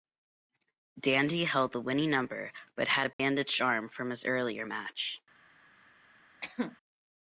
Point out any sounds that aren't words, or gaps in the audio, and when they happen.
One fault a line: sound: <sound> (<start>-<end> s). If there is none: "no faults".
sound: dropout (3.1-3.2 s)
sound: cough (6.4-6.8 s)